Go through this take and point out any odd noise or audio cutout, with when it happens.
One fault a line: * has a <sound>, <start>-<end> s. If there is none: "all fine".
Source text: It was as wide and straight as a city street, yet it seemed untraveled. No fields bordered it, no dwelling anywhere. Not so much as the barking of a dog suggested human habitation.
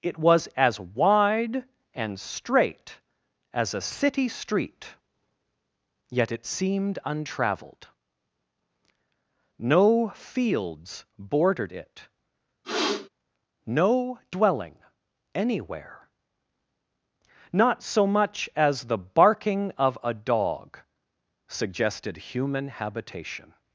* has a sniff, 12.6-13.1 s